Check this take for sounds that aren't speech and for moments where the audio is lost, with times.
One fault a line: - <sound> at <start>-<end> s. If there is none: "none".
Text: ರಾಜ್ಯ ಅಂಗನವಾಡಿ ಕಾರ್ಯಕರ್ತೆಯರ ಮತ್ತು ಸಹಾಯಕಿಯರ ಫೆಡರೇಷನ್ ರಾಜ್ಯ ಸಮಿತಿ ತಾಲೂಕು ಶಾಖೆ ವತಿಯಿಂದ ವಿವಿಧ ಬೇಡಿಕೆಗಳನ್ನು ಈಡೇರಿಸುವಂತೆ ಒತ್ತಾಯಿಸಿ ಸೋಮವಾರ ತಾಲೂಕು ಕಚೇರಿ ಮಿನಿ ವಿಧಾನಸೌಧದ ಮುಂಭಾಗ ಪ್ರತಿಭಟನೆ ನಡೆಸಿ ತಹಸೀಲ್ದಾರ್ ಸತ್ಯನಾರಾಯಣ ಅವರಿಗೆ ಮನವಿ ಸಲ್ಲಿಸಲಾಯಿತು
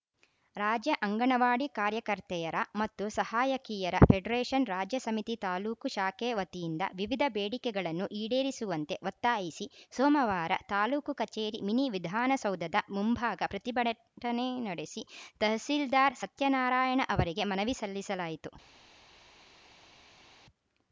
none